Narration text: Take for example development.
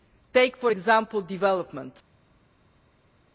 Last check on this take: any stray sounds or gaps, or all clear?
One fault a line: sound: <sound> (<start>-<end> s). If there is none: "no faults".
no faults